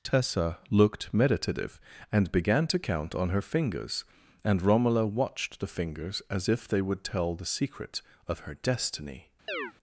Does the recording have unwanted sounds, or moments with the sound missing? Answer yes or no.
yes